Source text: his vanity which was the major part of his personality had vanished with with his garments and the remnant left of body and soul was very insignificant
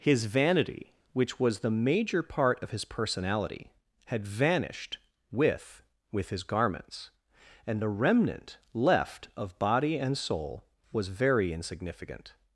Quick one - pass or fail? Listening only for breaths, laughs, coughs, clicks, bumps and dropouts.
pass